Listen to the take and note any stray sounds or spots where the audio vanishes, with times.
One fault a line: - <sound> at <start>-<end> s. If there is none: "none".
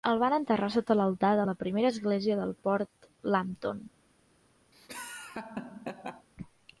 - laugh at 4.7-6.3 s